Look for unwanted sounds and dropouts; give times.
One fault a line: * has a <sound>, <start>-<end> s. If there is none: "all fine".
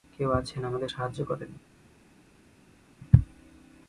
all fine